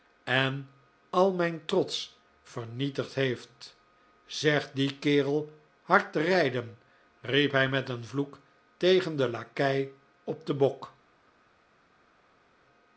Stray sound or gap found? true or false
false